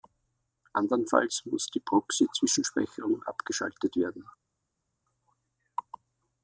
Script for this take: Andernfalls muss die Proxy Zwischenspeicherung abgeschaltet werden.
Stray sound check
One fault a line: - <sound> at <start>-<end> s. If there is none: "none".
none